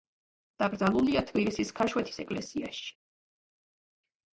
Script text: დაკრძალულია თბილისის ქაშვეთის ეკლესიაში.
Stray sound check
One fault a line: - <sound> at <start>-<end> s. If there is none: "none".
none